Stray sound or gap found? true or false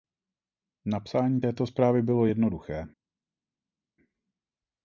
false